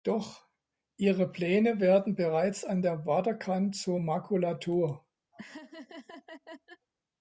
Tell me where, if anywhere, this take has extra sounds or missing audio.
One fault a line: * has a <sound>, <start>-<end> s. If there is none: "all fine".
* has a laugh, 5.3-6.9 s